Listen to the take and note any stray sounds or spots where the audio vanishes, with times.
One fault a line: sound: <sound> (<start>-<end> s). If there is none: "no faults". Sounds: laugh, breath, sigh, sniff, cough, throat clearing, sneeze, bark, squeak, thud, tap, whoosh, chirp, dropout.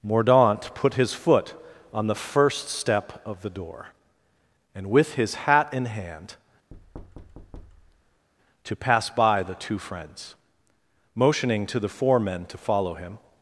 sound: thud (6.7-8.3 s)